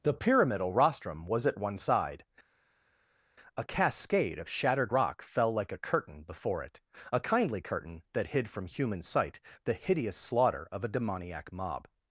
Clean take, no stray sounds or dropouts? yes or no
yes